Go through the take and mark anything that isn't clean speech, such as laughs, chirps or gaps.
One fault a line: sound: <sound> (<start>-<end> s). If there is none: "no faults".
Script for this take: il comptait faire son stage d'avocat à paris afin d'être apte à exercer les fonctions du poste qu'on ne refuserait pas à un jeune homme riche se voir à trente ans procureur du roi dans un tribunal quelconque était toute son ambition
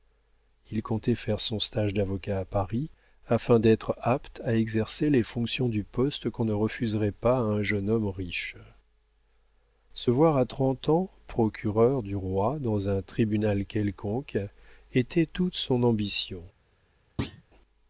sound: thud (17.2-17.4 s)